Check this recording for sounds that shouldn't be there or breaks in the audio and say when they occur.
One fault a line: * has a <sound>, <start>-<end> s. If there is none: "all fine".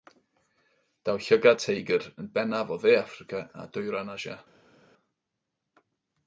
all fine